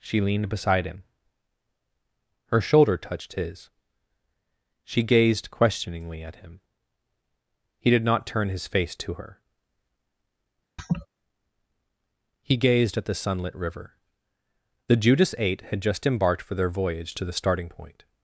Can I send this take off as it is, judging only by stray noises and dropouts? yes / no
no